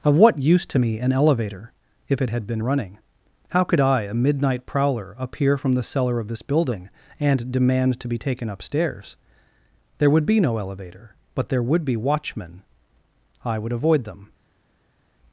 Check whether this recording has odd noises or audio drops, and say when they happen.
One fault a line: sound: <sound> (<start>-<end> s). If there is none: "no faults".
no faults